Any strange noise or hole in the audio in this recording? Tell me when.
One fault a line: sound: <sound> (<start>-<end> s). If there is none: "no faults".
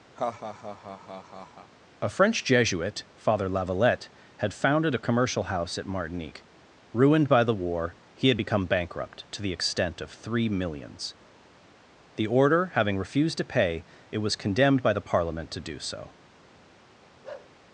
sound: laugh (0.2-1.7 s)
sound: bark (17.2-17.5 s)